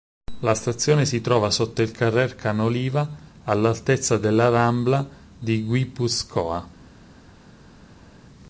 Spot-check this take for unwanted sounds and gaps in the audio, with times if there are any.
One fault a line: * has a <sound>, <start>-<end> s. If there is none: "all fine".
all fine